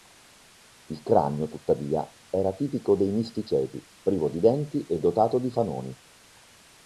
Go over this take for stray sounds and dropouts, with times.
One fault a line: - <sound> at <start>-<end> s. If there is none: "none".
none